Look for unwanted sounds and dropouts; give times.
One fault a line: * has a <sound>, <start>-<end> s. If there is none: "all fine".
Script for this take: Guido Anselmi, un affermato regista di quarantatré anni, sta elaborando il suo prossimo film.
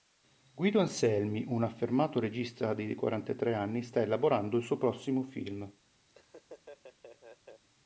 * has a laugh, 6.1-7.6 s